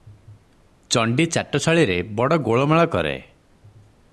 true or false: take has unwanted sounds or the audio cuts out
false